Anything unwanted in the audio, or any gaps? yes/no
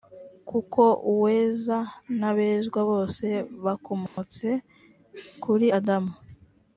yes